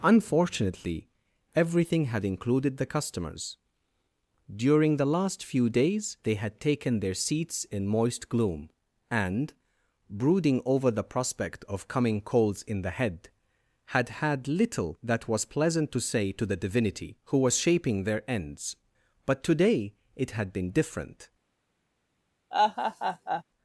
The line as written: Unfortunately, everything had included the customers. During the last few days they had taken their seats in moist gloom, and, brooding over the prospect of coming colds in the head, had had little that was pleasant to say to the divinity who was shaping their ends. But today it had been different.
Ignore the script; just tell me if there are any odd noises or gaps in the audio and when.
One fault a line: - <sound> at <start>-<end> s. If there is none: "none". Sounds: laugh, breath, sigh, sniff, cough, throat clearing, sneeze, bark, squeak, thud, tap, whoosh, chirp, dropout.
- laugh at 22.5-23.4 s